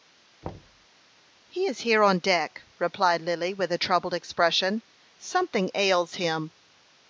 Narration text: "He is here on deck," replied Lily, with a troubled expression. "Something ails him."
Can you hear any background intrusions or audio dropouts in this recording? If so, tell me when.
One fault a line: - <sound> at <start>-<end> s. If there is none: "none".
- thud at 0.4-0.9 s